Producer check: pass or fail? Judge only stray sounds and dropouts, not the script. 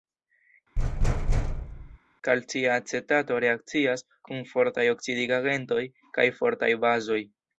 fail